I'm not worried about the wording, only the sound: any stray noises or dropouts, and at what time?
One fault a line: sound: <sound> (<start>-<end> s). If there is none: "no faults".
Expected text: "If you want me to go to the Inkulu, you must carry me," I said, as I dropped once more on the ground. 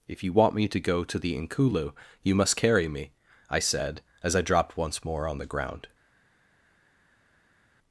no faults